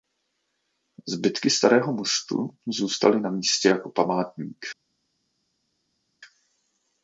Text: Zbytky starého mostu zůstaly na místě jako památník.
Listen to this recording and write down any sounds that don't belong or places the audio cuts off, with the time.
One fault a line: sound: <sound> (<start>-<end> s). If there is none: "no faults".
no faults